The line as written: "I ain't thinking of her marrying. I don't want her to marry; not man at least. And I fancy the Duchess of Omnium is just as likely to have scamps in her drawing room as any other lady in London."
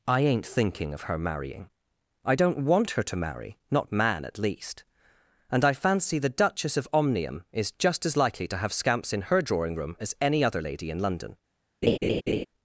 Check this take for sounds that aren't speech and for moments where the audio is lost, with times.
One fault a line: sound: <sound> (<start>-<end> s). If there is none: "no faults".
sound: laugh (11.8-12.5 s)